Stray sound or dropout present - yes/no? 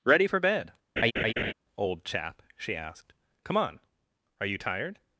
yes